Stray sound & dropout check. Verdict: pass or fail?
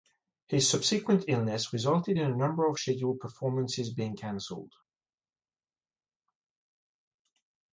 pass